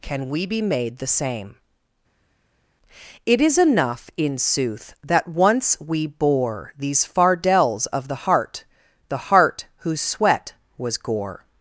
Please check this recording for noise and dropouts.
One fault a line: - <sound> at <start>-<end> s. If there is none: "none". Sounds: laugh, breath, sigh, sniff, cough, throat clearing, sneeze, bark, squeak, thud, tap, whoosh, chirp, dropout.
none